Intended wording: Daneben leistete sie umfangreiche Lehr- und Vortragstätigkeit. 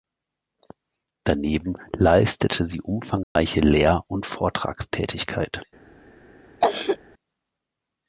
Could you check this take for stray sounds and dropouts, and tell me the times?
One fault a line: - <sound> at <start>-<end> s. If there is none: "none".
- dropout at 3.2-3.4 s
- cough at 6.6-7.0 s